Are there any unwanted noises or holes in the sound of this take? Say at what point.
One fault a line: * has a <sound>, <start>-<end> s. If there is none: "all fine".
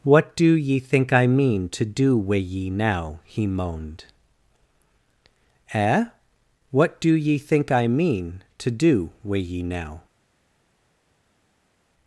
all fine